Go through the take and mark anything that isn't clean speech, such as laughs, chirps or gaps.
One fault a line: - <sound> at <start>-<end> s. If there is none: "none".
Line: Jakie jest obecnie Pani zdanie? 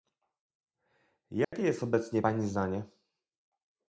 - dropout at 1.4-1.5 s